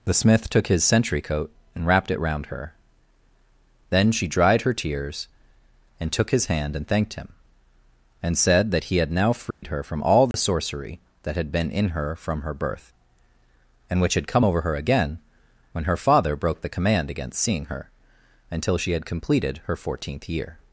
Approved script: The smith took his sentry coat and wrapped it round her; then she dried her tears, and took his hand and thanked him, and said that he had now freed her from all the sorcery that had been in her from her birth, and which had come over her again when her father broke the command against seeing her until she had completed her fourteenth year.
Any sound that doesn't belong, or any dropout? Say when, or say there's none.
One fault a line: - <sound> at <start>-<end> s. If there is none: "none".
- dropout at 9.5-9.6 s
- dropout at 10.3-10.3 s